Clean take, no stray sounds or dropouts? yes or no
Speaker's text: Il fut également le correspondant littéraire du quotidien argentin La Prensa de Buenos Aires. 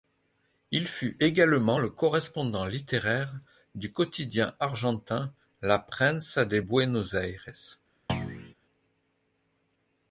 no